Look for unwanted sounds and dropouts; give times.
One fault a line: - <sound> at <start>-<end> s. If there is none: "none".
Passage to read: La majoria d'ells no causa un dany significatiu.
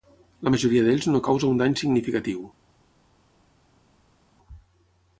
none